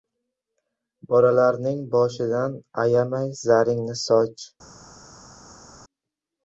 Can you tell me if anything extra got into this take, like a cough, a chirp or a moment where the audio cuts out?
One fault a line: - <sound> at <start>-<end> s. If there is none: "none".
none